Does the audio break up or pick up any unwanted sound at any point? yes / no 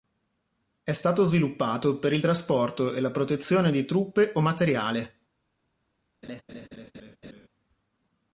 yes